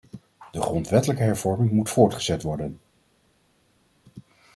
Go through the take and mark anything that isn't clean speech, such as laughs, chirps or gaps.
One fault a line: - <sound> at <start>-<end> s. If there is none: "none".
none